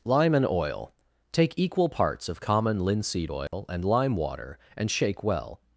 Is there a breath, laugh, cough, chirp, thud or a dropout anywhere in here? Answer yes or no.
yes